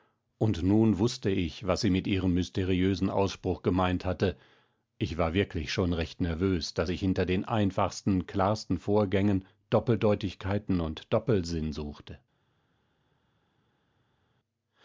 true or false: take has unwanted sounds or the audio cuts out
false